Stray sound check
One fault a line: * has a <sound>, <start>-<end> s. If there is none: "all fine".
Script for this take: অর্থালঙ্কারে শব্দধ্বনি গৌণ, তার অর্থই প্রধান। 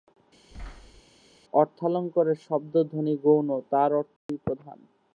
* has a thud, 0.5-1.0 s
* has a dropout, 4.2-4.3 s